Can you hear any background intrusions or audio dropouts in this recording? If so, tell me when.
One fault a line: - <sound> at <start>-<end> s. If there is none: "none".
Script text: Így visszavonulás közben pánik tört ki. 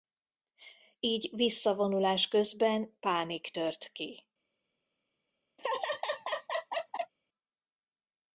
- laugh at 5.6-7.1 s